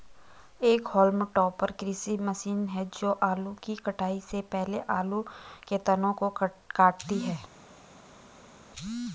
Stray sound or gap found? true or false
false